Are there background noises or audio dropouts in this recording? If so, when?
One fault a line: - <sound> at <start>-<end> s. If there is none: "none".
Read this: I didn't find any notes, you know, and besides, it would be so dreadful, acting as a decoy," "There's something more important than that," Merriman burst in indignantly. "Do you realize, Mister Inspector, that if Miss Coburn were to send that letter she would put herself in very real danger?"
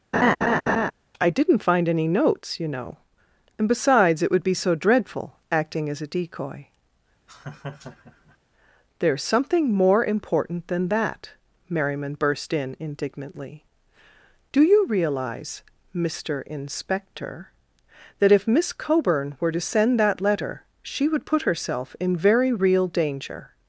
- laugh at 0.1-0.9 s
- laugh at 7.3-8.4 s